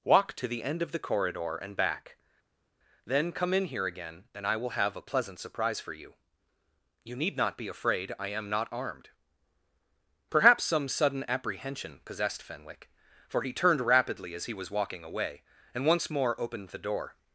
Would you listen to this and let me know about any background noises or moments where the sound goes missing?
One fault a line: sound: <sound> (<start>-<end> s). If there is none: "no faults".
no faults